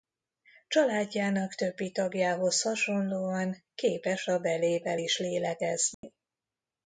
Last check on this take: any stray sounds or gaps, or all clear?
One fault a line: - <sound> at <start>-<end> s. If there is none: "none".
- dropout at 5.9-6.0 s